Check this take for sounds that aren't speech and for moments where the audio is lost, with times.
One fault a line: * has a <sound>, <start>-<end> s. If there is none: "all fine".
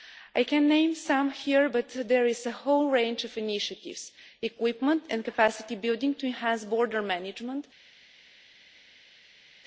all fine